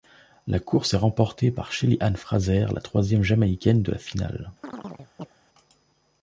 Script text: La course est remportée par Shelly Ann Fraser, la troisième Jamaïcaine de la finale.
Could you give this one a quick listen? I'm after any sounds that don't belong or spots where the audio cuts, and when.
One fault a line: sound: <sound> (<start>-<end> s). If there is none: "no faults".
sound: chirp (4.6-5.3 s)